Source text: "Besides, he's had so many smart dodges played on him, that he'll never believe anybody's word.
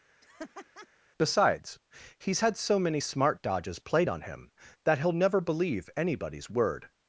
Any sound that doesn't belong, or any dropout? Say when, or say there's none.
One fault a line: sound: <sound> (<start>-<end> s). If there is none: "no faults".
sound: laugh (0.2-0.9 s)